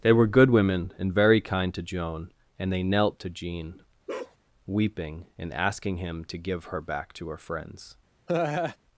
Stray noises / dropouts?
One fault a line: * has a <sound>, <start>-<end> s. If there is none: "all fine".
* has a bark, 4.1-4.4 s
* has a laugh, 8.3-8.8 s